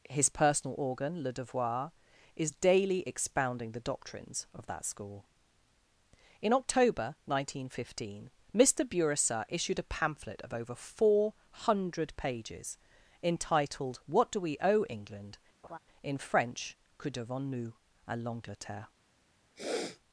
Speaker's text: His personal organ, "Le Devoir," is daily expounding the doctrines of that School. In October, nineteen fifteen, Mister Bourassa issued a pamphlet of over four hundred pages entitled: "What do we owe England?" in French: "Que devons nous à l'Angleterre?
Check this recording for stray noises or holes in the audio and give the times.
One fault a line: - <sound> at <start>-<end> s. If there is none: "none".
- laugh at 15.6-15.8 s
- sniff at 19.6-20.0 s